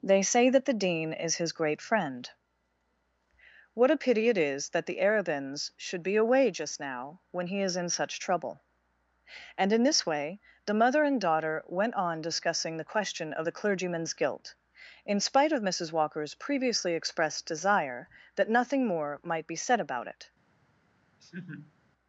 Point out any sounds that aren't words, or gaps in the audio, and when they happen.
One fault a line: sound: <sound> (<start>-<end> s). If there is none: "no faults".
sound: laugh (21.2-21.7 s)